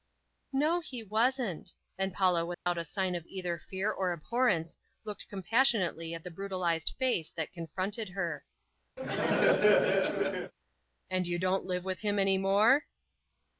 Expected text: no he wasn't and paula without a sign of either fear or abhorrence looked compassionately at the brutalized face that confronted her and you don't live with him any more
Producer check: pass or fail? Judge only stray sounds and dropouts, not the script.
fail